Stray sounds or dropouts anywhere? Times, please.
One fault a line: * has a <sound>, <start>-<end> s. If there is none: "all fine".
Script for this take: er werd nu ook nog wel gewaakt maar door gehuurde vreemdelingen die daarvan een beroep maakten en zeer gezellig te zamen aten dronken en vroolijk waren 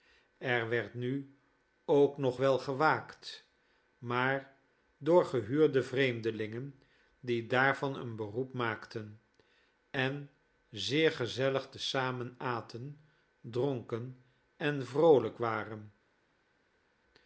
all fine